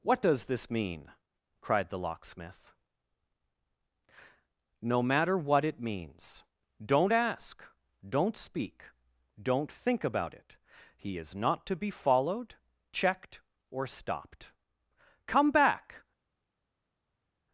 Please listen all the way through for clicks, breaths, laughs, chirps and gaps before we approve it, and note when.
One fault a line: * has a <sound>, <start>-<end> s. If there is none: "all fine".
all fine